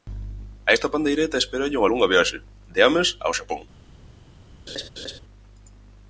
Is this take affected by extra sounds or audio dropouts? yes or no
yes